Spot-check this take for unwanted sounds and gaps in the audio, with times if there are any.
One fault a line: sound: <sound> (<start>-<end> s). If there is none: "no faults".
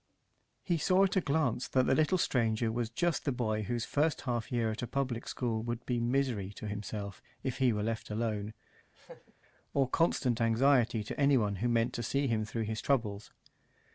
sound: laugh (8.9-9.3 s)